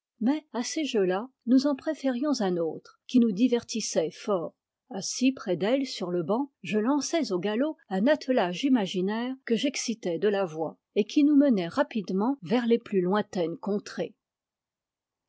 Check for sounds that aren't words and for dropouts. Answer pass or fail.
pass